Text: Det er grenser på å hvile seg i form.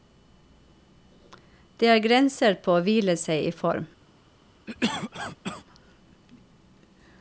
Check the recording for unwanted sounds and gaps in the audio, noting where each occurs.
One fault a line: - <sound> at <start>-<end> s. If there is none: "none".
- cough at 4.7-5.6 s